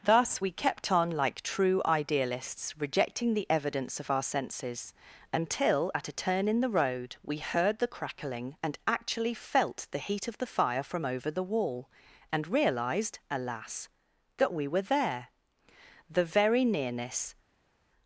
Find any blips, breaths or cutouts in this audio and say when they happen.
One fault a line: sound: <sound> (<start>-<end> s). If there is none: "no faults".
no faults